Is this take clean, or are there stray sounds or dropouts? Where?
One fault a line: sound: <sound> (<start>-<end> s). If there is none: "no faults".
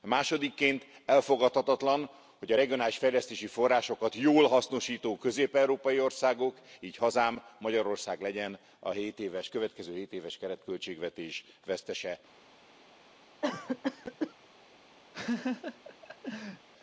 sound: cough (13.4-14.3 s)
sound: laugh (15.1-16.7 s)